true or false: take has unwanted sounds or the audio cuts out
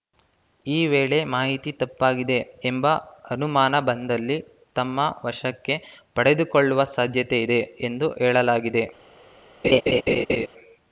true